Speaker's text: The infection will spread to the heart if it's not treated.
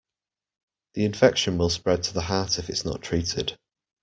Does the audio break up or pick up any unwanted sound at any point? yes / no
no